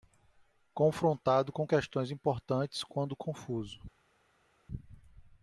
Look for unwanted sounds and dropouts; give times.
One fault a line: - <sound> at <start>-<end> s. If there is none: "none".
none